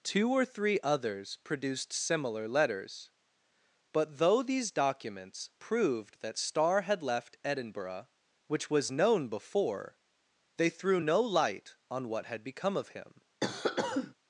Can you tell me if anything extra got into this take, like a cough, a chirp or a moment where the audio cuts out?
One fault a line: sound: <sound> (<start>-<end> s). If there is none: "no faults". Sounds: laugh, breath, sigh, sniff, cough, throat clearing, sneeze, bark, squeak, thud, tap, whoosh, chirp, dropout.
sound: cough (13.4-14.1 s)